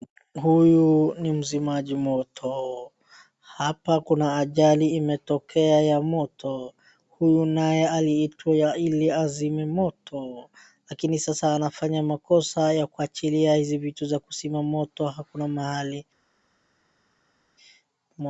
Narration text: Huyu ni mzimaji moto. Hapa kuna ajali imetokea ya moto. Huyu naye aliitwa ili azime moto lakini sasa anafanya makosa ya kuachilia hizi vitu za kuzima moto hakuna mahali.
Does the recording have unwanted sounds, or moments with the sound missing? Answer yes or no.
no